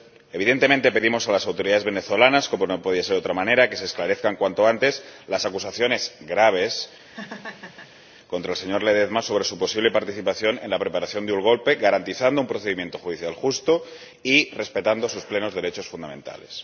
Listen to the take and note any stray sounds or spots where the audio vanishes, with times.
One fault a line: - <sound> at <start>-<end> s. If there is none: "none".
- laugh at 7.0-8.0 s